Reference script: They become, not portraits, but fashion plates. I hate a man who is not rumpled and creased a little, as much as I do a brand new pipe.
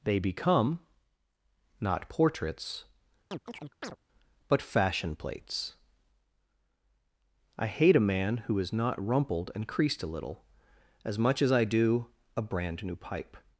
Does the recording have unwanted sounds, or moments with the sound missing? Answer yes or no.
yes